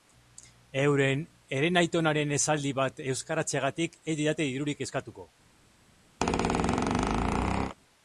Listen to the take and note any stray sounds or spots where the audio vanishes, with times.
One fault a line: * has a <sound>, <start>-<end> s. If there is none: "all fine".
* has a squeak, 6.2-7.8 s